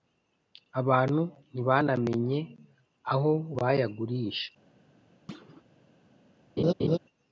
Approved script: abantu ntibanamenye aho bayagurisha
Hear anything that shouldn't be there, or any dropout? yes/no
yes